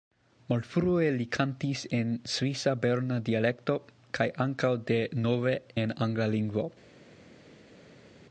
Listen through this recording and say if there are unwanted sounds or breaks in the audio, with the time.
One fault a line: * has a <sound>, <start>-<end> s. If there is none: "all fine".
all fine